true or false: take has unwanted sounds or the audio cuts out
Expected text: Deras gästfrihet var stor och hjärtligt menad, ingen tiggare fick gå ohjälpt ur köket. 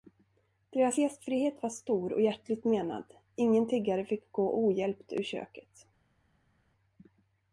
false